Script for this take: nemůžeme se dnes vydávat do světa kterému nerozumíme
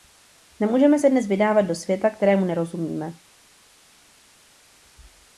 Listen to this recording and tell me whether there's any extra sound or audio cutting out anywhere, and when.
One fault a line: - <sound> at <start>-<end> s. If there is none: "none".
none